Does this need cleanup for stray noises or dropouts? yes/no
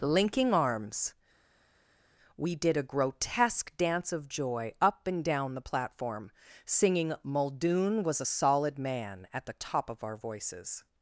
no